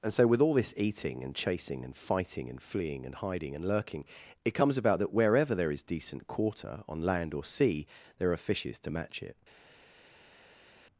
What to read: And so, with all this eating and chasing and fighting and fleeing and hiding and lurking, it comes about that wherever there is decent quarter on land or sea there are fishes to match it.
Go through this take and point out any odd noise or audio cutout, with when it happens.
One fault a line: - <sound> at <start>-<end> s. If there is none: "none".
none